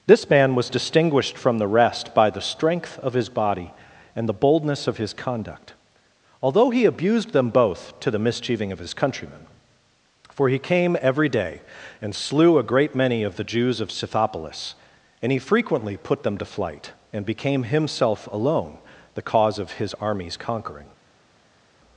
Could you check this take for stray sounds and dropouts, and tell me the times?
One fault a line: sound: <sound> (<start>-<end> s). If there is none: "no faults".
no faults